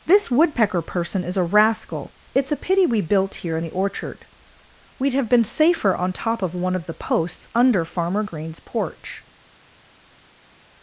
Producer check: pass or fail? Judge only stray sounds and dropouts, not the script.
pass